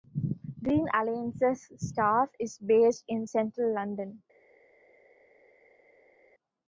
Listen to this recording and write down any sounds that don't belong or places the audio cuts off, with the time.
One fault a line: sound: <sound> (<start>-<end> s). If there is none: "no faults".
no faults